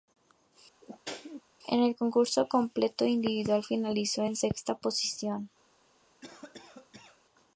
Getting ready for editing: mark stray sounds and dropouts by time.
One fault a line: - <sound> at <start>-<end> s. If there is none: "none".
- sneeze at 0.8-1.4 s
- cough at 6.2-7.2 s